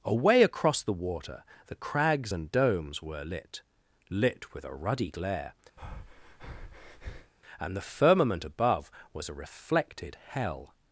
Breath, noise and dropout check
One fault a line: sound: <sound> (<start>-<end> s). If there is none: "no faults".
sound: breath (5.8-7.3 s)